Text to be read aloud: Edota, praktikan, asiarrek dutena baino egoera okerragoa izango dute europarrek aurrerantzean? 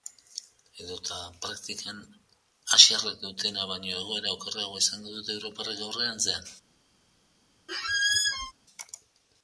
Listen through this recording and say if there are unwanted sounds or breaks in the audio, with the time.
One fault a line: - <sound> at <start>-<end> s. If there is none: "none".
- squeak at 7.7-8.5 s